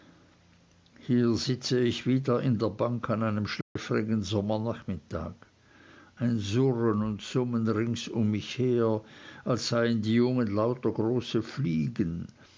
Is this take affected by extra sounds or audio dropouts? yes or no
yes